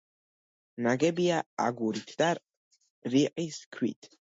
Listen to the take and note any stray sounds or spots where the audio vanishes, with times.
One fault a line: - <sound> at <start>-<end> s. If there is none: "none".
none